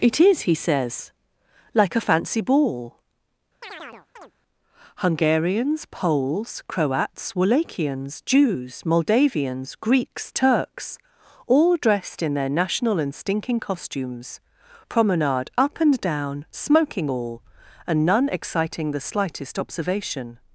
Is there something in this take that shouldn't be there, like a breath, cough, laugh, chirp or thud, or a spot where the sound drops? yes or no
yes